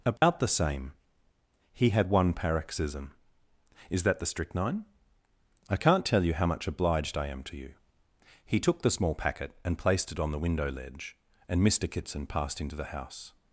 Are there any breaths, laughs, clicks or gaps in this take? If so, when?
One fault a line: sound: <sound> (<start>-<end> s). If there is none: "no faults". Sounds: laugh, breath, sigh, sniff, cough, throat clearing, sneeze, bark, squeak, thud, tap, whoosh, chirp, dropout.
sound: dropout (0.2-0.2 s)